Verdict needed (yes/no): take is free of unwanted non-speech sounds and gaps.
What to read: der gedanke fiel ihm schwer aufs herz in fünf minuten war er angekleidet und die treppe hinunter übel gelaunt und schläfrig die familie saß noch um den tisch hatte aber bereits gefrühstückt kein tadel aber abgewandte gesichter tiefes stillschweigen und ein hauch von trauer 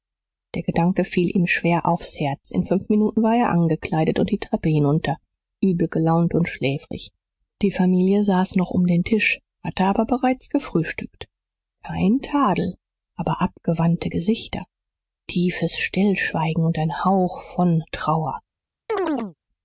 no